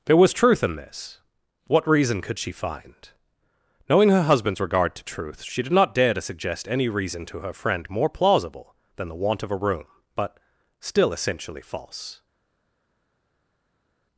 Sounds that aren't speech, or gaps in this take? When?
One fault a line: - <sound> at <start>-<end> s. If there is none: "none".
none